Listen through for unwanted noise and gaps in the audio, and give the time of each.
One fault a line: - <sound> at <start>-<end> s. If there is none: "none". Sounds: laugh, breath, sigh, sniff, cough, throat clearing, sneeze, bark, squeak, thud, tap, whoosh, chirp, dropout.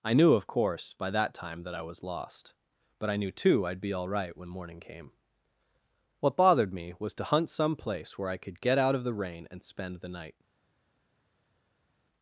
none